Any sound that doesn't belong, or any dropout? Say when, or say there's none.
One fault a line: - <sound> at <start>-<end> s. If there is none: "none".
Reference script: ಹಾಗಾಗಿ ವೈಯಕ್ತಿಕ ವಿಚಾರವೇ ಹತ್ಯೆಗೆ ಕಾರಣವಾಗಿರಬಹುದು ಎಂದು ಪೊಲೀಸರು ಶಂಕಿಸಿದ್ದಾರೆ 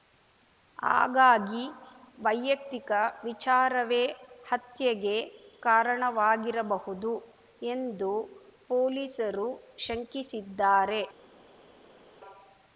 none